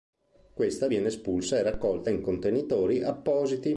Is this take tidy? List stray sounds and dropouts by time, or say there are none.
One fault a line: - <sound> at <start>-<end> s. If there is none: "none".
none